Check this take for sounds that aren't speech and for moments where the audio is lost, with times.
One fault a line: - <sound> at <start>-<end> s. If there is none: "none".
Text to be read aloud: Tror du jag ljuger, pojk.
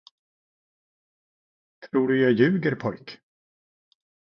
none